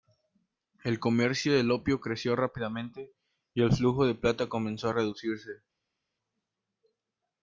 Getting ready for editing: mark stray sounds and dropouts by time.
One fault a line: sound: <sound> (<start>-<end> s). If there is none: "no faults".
no faults